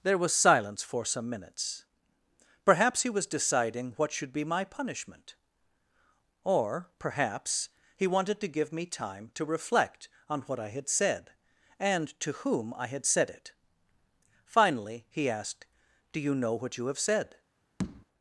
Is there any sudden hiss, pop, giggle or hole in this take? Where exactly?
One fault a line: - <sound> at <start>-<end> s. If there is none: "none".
- tap at 17.8-18.1 s